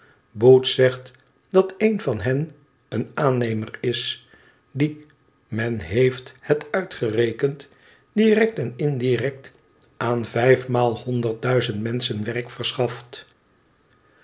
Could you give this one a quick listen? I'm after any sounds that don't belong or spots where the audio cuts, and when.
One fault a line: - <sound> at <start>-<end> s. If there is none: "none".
none